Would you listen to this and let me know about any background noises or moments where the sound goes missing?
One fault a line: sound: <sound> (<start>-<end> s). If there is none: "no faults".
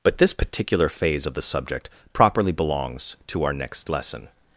no faults